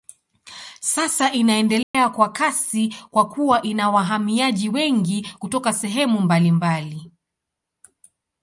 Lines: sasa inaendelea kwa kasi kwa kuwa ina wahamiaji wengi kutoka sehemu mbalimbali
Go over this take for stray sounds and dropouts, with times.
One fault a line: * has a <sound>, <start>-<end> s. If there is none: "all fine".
* has a dropout, 1.8-1.9 s